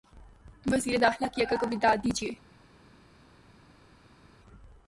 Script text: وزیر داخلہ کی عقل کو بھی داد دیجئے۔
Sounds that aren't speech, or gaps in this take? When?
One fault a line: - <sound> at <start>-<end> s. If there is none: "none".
none